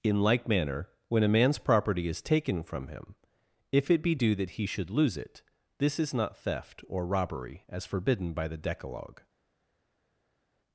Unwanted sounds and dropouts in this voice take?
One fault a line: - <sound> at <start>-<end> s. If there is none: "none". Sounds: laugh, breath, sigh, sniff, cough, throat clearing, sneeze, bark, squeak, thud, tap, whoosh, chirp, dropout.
none